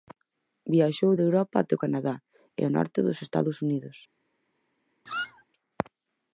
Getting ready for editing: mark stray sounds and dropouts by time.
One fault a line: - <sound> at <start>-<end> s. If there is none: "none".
- squeak at 5.1-5.4 s